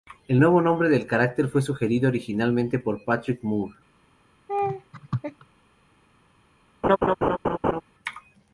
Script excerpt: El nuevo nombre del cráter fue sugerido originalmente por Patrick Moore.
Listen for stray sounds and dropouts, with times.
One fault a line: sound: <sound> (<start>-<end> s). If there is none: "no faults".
sound: laugh (4.5-5.5 s)
sound: laugh (6.8-7.8 s)